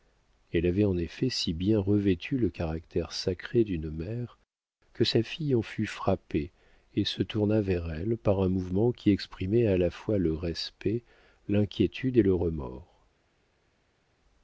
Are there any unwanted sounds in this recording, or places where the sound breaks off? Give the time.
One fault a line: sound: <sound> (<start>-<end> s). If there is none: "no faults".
no faults